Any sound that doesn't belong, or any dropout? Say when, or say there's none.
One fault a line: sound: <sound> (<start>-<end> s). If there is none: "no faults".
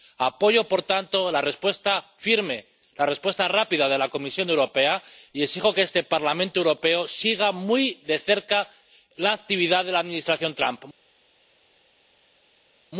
no faults